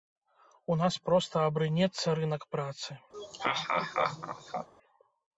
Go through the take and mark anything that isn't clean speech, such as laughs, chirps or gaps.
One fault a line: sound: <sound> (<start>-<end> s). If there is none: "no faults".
sound: laugh (3.1-4.7 s)